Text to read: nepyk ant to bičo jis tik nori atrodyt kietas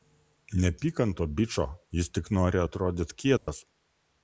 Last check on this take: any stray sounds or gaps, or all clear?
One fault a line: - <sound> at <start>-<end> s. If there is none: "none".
- dropout at 3.4-3.5 s